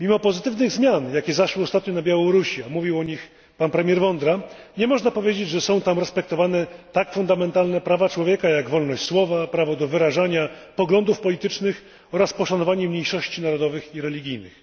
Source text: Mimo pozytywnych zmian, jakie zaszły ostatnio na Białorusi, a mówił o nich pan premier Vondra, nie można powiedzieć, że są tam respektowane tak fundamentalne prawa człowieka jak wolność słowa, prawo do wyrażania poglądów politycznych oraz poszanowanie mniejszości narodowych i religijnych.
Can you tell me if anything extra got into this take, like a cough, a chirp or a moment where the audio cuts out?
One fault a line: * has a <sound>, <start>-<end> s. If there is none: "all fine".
all fine